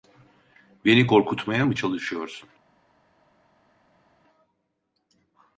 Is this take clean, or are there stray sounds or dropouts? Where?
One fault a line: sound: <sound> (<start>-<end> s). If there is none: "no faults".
no faults